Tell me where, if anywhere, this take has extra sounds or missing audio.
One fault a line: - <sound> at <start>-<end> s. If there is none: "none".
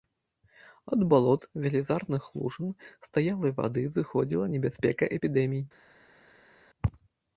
none